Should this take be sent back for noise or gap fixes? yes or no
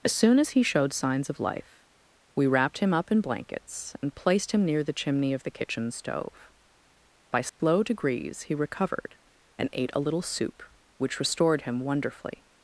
yes